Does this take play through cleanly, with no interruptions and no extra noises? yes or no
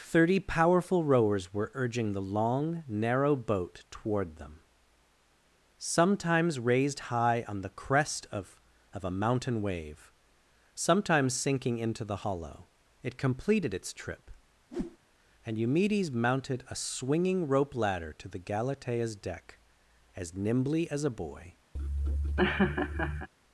no